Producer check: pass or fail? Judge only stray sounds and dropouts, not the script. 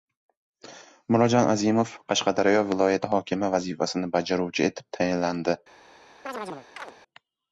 fail